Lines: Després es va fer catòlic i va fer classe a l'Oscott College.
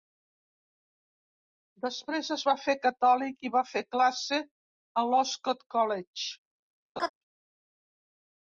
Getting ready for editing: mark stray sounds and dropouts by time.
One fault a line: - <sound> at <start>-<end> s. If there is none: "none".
- laugh at 7.0-7.1 s